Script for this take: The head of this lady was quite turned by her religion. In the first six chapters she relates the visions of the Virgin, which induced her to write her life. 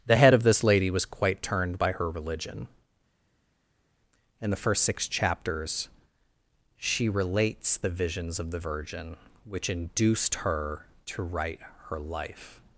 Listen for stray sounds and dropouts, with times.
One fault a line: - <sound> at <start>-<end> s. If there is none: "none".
none